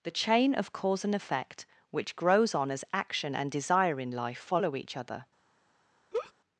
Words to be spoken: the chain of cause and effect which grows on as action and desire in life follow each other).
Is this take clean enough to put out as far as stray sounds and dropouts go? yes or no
no